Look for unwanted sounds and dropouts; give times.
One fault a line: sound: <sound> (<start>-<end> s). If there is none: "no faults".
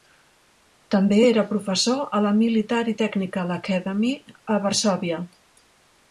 no faults